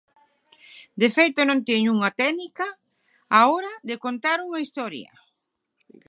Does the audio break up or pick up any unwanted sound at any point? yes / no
no